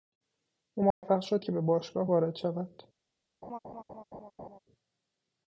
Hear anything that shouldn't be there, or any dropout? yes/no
yes